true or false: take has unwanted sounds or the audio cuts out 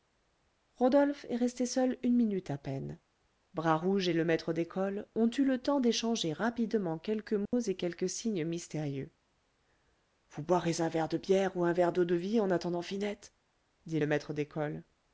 true